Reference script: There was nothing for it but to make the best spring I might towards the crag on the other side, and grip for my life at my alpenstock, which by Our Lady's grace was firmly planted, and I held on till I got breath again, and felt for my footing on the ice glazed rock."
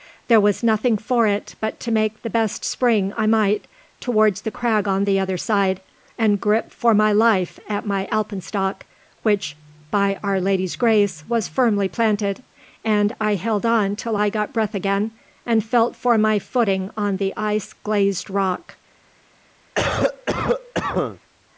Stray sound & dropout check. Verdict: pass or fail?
fail